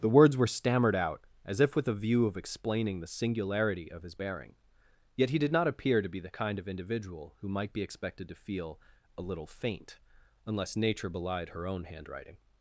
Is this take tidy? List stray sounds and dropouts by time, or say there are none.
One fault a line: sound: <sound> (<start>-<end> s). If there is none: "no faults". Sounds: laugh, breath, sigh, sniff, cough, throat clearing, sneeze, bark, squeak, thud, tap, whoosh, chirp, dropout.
no faults